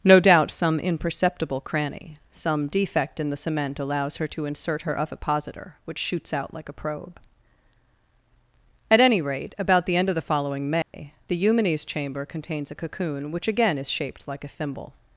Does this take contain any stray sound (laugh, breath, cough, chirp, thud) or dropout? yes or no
yes